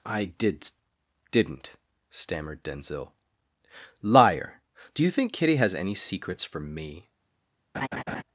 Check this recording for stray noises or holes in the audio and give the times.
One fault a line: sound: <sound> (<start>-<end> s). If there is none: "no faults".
sound: laugh (7.7-8.2 s)